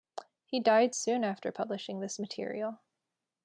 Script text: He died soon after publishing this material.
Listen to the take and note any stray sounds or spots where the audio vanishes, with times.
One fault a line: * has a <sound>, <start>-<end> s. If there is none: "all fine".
all fine